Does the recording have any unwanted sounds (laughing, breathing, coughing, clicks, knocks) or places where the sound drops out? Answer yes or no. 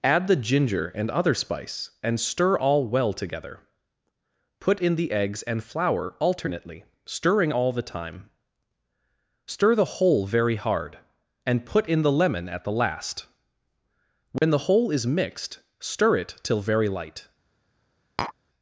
yes